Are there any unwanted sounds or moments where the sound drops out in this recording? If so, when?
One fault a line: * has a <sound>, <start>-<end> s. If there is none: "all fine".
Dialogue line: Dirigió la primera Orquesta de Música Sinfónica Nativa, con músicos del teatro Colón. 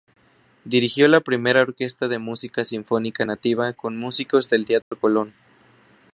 * has a dropout, 4.8-4.9 s